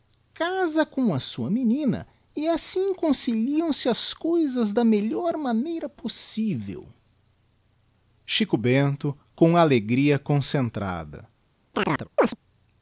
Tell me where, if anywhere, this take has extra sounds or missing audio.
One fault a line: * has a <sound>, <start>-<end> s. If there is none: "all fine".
* has a chirp, 11.7-12.4 s